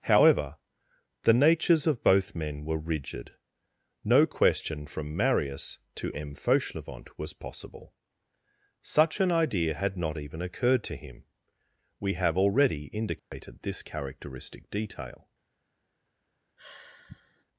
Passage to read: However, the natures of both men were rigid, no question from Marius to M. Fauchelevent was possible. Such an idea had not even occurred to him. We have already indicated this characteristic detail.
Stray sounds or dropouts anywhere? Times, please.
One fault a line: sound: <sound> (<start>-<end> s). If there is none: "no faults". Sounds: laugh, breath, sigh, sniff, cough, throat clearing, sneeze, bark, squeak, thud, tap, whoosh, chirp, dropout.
sound: dropout (13.2-13.3 s)
sound: sigh (16.6-17.4 s)